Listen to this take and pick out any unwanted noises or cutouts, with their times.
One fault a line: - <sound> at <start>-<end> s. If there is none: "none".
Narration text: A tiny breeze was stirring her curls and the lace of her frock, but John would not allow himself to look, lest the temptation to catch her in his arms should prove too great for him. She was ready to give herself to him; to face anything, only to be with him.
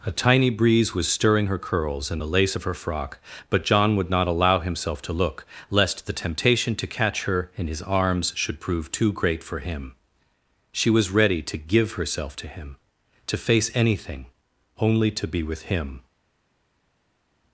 none